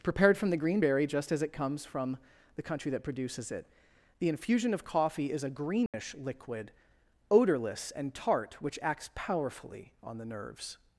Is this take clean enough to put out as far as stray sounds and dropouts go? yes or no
no